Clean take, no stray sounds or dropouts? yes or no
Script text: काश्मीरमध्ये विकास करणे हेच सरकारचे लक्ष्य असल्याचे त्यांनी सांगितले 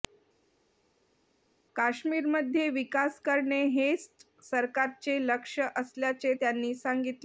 yes